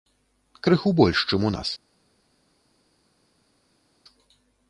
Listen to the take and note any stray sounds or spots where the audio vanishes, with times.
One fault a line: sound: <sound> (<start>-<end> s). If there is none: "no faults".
no faults